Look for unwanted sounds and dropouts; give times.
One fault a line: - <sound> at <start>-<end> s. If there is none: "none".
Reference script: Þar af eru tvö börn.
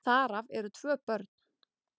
none